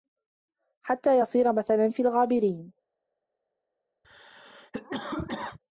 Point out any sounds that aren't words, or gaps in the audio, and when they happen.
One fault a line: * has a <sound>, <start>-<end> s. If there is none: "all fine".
* has a cough, 4.0-5.6 s